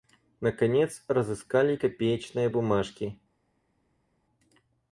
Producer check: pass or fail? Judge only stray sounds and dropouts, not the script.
pass